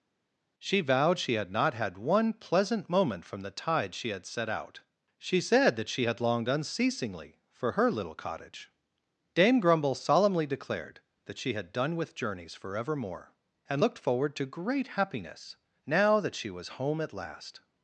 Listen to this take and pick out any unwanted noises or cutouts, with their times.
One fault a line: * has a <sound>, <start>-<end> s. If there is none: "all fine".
all fine